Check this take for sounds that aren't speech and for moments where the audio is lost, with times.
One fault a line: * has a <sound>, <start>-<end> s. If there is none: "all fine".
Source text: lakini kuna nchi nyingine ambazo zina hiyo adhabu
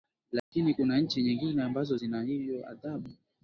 * has a dropout, 0.4-0.5 s